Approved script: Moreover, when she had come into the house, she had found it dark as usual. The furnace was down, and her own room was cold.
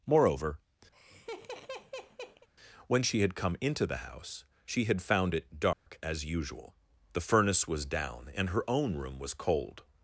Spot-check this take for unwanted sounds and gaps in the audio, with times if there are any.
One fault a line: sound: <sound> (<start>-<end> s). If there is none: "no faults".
sound: laugh (0.9-2.5 s)
sound: dropout (5.7-5.9 s)